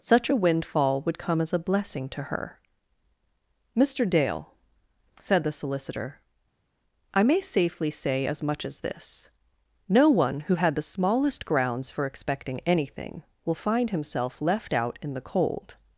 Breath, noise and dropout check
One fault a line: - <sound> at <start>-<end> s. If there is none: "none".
none